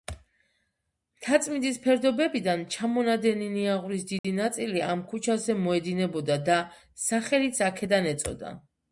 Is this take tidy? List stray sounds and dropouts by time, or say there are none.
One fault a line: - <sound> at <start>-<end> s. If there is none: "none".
- dropout at 4.2-4.2 s